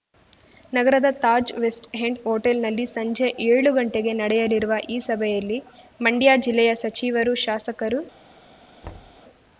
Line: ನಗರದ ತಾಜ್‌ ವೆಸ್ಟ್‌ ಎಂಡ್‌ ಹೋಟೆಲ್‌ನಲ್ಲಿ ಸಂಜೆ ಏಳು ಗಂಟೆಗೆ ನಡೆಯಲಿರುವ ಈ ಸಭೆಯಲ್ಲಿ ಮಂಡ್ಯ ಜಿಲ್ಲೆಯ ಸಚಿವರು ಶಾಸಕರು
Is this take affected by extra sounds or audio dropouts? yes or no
yes